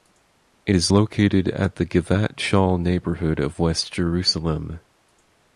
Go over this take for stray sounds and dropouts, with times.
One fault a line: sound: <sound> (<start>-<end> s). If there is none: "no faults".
no faults